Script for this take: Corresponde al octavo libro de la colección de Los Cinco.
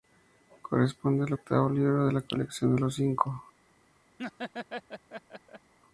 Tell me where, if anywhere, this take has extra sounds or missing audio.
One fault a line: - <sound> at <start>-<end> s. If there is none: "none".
- laugh at 4.2-5.7 s